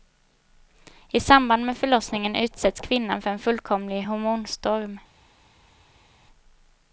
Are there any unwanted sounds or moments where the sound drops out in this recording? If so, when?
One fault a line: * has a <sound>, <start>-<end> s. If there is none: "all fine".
all fine